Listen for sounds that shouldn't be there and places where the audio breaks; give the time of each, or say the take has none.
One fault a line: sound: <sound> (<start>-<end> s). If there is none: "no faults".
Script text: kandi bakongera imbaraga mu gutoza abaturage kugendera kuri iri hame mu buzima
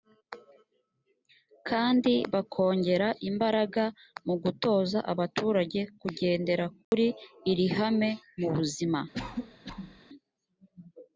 sound: dropout (6.8-6.9 s)
sound: cough (9.1-10.0 s)